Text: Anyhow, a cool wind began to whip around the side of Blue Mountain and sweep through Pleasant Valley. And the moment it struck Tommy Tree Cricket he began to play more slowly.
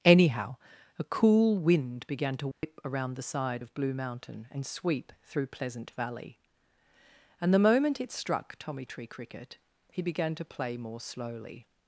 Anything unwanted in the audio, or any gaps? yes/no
yes